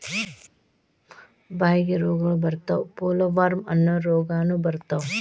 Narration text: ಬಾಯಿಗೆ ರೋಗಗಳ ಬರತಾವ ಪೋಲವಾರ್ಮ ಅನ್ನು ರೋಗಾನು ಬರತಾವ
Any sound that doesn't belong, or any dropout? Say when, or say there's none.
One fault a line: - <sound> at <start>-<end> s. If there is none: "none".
none